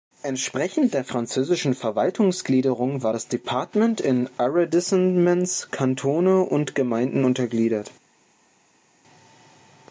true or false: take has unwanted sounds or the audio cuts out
false